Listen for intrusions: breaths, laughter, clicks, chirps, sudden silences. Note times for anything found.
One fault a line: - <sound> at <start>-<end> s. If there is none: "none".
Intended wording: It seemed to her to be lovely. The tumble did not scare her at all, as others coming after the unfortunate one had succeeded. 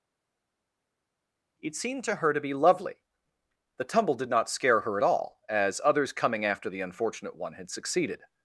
none